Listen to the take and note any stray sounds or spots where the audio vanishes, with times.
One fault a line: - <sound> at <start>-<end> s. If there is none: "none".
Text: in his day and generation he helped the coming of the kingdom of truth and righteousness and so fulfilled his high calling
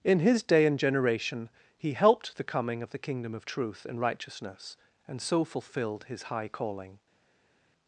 none